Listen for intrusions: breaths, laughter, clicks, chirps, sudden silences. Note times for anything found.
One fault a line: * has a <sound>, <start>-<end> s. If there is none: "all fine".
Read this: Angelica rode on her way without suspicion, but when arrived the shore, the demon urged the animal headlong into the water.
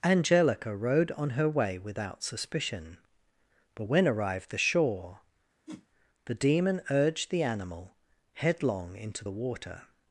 * has a whoosh, 5.7-5.9 s